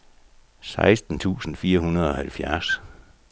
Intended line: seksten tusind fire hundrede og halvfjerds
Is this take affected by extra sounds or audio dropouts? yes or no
no